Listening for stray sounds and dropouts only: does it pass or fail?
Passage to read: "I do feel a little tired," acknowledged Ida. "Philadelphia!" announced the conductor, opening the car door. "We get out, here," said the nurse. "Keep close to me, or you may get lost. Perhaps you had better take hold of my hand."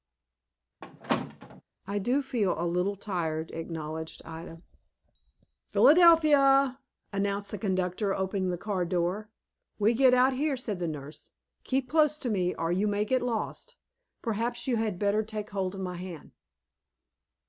fail